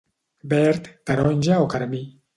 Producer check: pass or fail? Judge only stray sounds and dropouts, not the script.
pass